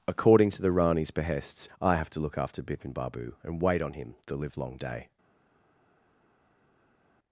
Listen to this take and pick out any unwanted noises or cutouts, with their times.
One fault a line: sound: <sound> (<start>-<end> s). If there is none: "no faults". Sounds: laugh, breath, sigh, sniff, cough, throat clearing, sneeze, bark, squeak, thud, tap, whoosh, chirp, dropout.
no faults